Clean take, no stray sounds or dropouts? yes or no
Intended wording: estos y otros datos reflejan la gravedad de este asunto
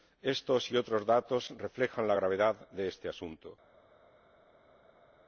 yes